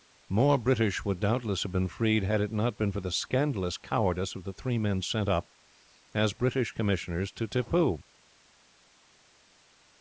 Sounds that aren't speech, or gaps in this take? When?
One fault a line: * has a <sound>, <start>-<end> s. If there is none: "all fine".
all fine